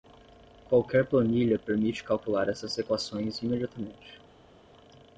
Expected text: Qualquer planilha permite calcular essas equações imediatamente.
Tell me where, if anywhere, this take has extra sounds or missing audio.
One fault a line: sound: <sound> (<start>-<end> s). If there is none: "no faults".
no faults